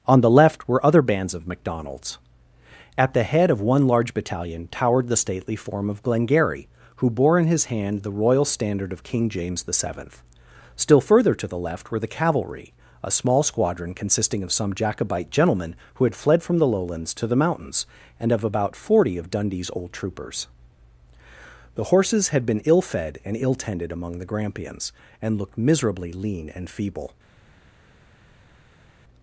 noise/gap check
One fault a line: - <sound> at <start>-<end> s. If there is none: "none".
none